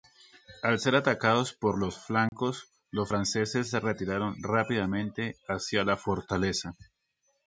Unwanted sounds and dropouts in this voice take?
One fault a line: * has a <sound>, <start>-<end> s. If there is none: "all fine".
* has a dropout, 2.3-2.3 s